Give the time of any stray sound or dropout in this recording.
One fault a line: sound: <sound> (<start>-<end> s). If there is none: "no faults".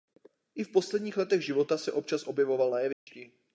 sound: dropout (2.9-3.1 s)